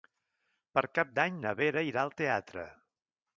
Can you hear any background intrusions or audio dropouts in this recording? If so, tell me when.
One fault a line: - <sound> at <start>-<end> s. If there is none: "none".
none